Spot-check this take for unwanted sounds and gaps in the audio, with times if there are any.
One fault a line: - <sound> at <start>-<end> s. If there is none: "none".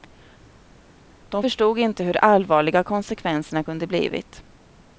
none